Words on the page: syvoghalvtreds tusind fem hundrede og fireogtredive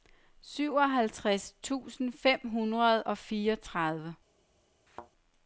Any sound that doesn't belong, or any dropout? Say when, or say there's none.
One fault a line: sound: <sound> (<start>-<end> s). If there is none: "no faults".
sound: thud (4.9-5.1 s)